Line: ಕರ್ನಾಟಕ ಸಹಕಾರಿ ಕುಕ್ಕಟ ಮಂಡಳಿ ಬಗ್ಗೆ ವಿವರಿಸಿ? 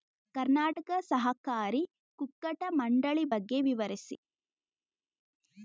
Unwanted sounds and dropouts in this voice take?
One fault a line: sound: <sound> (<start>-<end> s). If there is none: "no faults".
no faults